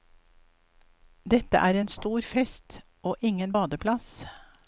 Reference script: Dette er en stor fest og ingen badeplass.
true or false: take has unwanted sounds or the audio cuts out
false